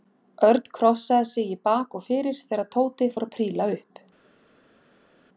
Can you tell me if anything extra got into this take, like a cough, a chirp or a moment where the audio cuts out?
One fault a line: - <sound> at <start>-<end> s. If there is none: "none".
none